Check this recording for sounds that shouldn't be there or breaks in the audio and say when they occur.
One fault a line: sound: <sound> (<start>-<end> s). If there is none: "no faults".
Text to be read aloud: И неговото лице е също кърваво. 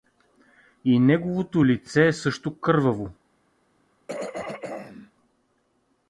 sound: throat clearing (4.1-5.1 s)